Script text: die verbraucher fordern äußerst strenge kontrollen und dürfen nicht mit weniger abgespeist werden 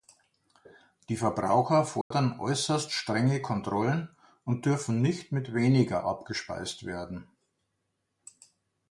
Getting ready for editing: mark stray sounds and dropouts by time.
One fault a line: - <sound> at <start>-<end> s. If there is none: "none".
- dropout at 2.0-2.1 s